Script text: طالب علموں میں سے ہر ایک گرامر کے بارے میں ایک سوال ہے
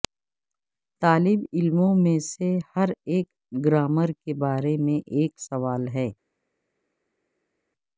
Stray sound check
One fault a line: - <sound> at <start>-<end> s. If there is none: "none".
none